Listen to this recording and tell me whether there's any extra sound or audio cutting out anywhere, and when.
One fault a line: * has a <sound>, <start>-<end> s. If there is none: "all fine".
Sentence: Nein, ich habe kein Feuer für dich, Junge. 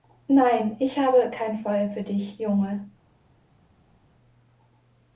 all fine